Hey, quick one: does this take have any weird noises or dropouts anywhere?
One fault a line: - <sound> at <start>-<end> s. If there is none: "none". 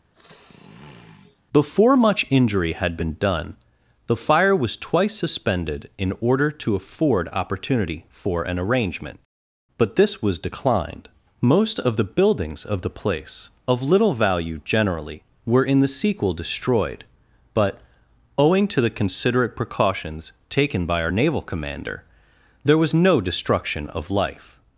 - sniff at 0.1-1.4 s